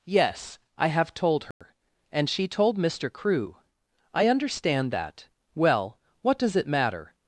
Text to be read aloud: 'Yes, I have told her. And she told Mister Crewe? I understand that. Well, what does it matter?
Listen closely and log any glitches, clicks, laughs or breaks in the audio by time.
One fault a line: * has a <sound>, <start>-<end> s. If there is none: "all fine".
* has a dropout, 1.5-1.6 s